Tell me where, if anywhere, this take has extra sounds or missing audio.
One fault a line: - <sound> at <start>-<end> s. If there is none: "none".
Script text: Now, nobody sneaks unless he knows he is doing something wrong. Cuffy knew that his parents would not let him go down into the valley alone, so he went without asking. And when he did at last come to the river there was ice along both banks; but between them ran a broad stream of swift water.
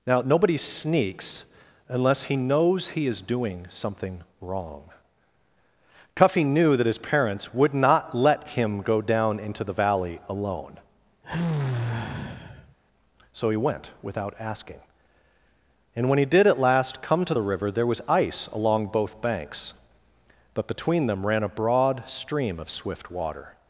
- sigh at 11.2-12.8 s